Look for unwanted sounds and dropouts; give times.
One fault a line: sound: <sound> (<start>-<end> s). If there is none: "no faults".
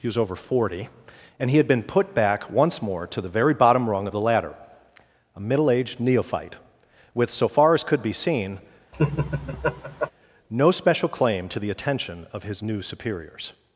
sound: laugh (8.9-10.1 s)